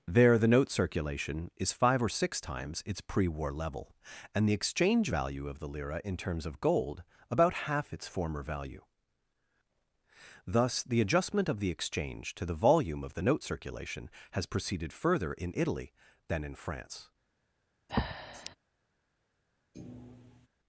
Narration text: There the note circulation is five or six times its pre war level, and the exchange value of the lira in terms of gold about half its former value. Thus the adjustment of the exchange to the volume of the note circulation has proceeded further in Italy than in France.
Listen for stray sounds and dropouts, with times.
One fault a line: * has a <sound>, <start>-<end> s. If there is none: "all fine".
* has a breath, 17.9-18.6 s
* has a thud, 19.7-20.5 s